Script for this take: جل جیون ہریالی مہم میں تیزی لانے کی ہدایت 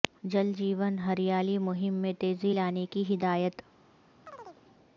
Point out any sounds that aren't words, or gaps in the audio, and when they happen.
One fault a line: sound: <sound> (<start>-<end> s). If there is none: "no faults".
sound: chirp (4.3-4.6 s)